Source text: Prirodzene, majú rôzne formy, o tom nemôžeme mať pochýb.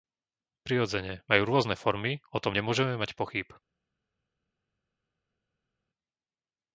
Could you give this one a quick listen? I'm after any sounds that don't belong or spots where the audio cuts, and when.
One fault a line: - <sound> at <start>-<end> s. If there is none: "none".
none